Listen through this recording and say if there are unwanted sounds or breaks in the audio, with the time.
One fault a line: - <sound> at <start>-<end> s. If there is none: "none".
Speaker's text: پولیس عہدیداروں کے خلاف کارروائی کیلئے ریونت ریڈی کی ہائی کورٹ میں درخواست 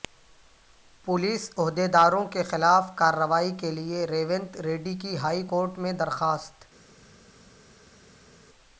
none